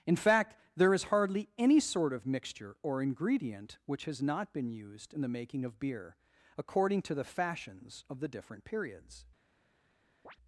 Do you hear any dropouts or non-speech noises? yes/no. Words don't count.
yes